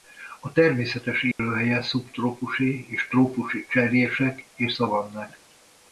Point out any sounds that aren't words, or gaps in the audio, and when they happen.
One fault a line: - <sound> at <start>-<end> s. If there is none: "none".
- dropout at 1.3-1.4 s